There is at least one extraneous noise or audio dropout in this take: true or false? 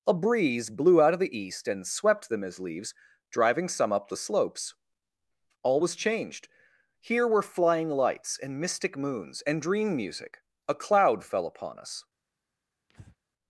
true